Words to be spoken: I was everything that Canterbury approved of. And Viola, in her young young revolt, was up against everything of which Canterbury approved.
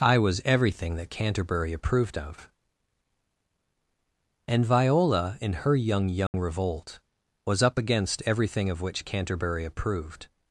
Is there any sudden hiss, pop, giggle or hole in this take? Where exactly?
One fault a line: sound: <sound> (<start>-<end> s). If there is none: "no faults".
sound: dropout (6.3-6.3 s)